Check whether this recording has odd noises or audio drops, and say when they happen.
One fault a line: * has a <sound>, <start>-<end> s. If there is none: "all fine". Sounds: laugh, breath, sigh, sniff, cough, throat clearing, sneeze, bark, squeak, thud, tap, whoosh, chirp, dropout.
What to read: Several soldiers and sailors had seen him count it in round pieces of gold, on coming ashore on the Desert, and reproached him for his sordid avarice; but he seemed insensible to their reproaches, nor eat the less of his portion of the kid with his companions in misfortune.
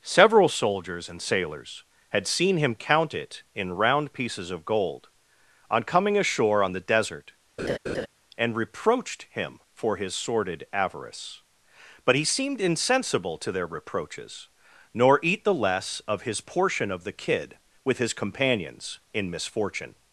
* has a laugh, 7.6-8.1 s